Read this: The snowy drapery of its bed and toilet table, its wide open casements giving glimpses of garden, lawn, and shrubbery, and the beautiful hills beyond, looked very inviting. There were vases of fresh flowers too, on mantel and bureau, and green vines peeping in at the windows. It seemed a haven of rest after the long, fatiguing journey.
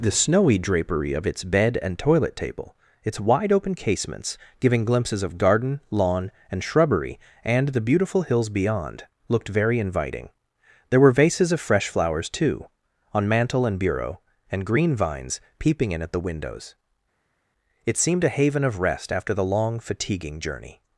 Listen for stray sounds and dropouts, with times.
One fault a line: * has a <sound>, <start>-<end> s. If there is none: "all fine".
all fine